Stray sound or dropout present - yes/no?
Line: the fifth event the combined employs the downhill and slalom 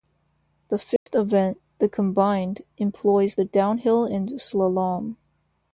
yes